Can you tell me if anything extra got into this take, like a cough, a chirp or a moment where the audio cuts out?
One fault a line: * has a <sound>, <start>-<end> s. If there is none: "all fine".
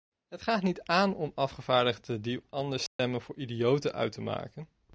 * has a dropout, 2.9-3.0 s